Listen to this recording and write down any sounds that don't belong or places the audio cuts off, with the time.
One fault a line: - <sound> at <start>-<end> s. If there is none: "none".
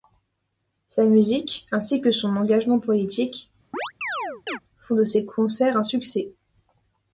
- chirp at 3.7-4.6 s